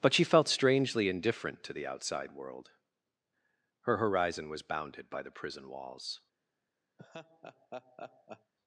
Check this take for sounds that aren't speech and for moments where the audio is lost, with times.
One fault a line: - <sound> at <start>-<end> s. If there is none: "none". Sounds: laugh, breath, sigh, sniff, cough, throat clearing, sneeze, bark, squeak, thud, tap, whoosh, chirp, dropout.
- laugh at 7.0-8.5 s